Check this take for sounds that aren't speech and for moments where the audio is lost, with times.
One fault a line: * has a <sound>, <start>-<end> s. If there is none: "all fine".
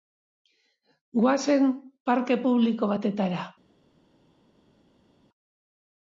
all fine